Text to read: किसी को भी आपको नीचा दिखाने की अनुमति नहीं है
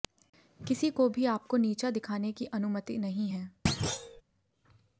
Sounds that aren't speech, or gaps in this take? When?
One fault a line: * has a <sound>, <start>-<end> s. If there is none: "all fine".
* has a thud, 3.7-4.2 s